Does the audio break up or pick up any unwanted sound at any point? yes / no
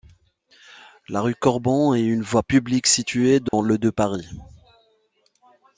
yes